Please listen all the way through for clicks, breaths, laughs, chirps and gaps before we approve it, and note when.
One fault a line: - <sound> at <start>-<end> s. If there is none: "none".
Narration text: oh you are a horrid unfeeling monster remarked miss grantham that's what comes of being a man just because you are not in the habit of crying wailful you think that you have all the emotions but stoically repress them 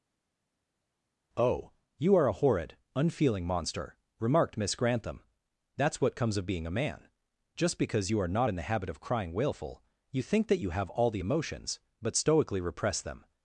none